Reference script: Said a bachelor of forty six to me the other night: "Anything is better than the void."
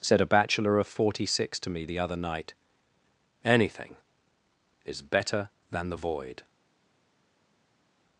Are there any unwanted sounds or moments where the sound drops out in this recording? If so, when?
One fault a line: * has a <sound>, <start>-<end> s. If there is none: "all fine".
all fine